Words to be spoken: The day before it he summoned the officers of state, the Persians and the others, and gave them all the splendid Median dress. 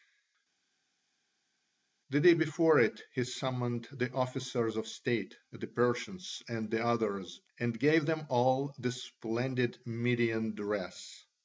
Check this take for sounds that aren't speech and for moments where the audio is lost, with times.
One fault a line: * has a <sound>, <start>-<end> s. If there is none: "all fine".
all fine